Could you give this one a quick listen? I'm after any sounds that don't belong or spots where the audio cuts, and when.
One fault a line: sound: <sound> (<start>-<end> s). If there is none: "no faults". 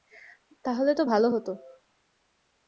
no faults